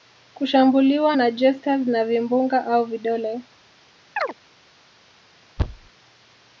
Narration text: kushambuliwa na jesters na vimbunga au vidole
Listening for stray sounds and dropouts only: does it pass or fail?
fail